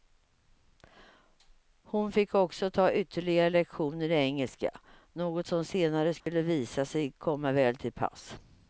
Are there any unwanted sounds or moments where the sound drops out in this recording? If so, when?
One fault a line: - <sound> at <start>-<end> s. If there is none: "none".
- dropout at 6.2-6.3 s